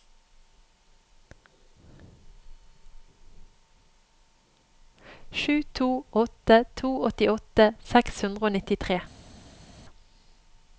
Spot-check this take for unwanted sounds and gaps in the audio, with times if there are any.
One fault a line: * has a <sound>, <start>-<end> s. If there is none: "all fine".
all fine